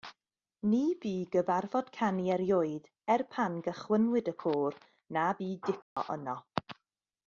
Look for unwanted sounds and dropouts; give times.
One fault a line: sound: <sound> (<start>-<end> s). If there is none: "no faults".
sound: dropout (5.8-6.0 s)